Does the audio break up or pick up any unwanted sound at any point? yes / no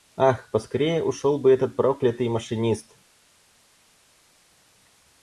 no